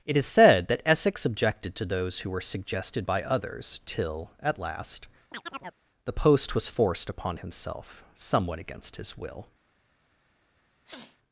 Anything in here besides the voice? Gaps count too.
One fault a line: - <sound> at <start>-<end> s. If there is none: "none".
- chirp at 5.3-5.8 s
- sniff at 10.9-11.2 s